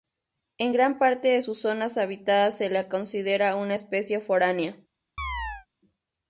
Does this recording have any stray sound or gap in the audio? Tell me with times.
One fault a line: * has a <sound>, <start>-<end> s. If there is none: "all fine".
* has a chirp, 5.2-5.7 s